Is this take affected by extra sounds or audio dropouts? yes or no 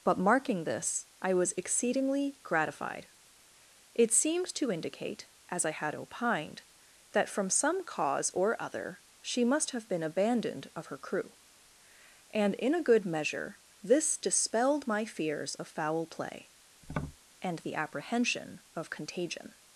yes